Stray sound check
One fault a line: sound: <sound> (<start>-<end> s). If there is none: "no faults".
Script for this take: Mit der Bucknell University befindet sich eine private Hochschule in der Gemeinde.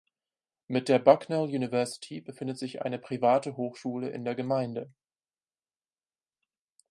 no faults